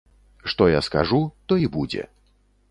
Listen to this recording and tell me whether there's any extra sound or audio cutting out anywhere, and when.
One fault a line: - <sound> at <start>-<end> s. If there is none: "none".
none